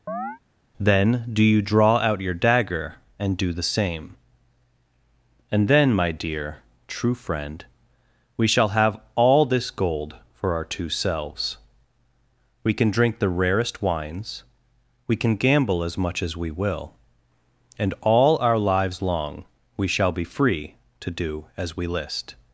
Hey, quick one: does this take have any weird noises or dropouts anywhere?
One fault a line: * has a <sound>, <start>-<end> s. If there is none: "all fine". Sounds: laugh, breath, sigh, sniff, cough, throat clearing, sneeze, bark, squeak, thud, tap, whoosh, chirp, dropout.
* has a chirp, 0.1-0.4 s